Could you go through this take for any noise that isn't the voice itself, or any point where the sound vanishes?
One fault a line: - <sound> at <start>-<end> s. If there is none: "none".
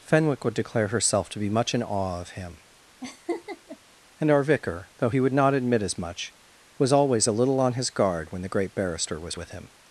- laugh at 3.0-3.8 s